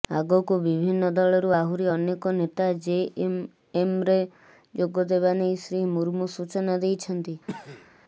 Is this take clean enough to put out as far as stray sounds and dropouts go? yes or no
no